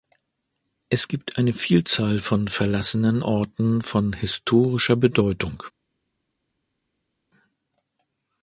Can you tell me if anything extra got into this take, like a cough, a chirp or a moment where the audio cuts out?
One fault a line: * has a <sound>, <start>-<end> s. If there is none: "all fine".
all fine